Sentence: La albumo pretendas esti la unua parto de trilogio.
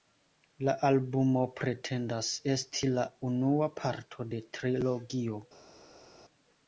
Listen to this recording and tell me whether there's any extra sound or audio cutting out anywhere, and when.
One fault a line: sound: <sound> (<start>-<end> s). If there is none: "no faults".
no faults